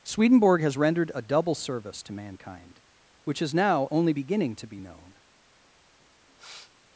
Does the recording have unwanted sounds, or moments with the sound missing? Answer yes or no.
yes